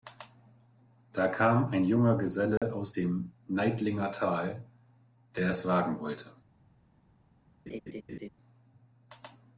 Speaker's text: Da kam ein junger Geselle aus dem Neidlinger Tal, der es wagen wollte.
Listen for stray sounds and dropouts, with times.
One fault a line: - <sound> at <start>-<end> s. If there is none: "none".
- dropout at 2.6-2.6 s
- laugh at 7.7-8.3 s